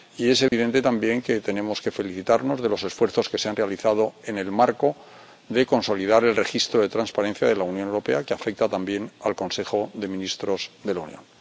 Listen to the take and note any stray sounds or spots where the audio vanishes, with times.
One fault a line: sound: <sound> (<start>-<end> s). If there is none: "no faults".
sound: dropout (0.5-0.5 s)